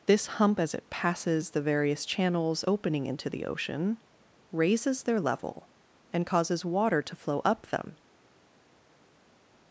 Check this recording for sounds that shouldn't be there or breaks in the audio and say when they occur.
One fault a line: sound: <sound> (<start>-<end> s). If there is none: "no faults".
no faults